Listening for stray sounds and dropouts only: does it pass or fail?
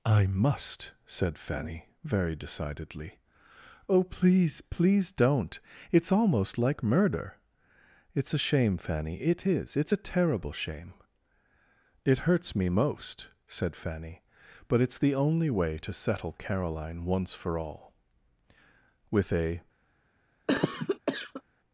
fail